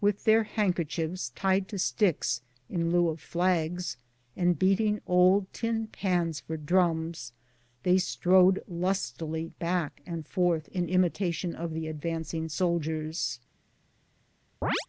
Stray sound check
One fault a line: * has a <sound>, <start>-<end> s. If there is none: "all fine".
* has a chirp, 14.6-14.9 s